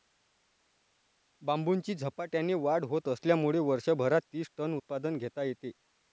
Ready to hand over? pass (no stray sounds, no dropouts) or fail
pass